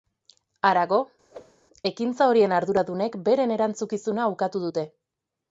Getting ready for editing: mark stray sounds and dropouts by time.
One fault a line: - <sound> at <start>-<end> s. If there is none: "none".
- whoosh at 1.3-1.6 s